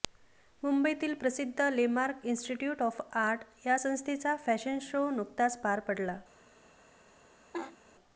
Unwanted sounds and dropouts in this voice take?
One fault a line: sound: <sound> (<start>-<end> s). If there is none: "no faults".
sound: laugh (7.5-7.8 s)